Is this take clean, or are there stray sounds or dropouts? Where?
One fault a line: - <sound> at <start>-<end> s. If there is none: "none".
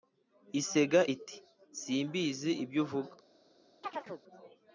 - chirp at 3.8-4.2 s